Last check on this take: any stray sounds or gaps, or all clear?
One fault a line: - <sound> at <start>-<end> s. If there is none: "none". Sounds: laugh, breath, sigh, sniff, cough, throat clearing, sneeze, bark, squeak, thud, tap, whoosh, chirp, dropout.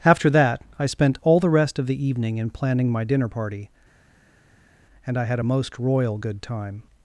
none